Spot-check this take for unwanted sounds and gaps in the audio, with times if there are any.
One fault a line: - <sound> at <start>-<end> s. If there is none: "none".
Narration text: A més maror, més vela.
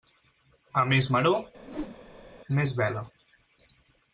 - whoosh at 1.6-2.4 s